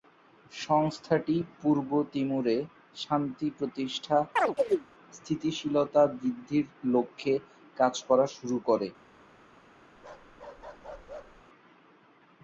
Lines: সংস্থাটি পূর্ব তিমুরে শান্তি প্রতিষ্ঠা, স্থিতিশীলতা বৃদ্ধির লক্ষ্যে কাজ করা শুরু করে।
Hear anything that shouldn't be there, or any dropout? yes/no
yes